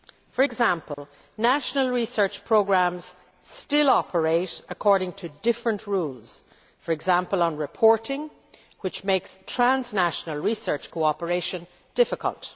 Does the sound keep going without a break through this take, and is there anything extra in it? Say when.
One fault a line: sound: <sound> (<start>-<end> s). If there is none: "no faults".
sound: dropout (0.9-1.0 s)